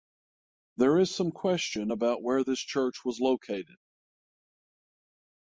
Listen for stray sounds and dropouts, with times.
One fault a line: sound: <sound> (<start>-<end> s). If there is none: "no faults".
no faults